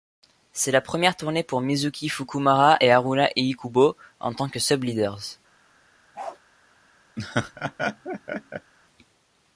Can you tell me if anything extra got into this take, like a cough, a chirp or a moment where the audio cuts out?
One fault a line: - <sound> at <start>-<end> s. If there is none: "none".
- bark at 6.1-6.4 s
- laugh at 7.2-8.7 s